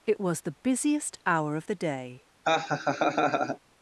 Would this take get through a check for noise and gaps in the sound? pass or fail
fail